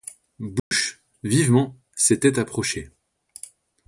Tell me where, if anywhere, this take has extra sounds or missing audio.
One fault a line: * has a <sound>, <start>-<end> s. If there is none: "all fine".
* has a dropout, 0.6-0.7 s